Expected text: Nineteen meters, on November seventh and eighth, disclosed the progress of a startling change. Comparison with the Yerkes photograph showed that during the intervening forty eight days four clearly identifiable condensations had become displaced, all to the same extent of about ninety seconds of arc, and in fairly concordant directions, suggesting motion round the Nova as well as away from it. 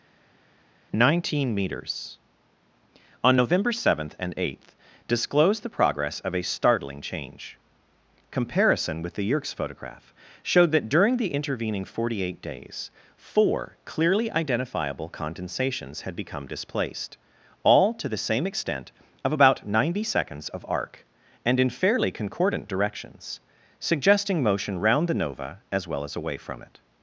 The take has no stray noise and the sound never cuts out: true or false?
true